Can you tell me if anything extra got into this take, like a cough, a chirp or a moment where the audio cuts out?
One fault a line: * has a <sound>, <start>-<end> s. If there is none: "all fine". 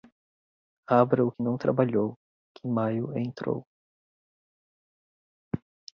all fine